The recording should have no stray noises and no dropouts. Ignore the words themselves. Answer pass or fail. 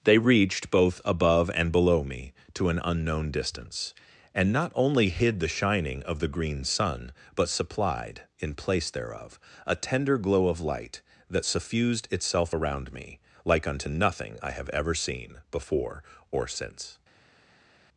pass